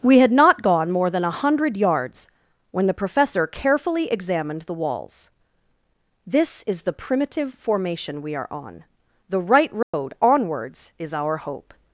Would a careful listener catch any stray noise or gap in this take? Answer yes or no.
yes